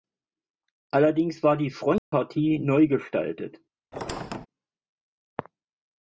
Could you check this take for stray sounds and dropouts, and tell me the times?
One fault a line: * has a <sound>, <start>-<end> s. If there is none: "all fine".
* has a dropout, 2.0-2.1 s
* has a squeak, 3.9-4.5 s